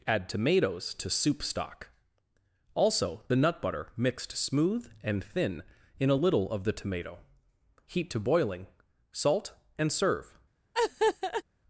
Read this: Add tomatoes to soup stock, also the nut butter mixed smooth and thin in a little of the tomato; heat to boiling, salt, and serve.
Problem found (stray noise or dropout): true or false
true